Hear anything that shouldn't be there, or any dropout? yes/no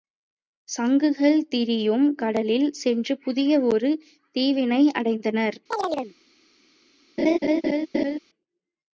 yes